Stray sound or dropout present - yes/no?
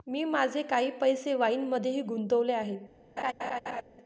yes